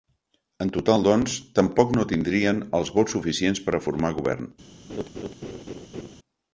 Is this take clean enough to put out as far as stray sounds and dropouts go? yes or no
no